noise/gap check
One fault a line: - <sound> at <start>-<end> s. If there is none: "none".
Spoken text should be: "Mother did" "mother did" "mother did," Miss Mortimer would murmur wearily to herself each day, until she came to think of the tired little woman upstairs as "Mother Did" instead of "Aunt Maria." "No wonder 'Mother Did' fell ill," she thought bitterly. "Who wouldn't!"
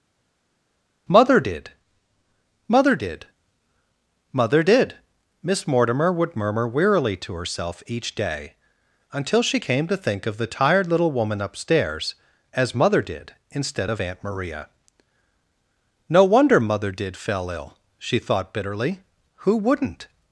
none